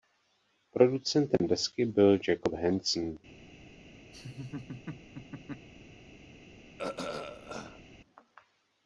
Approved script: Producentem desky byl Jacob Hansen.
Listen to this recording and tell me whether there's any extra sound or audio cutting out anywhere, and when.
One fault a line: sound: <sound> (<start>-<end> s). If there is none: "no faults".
sound: laugh (4.1-5.7 s)
sound: throat clearing (6.8-7.8 s)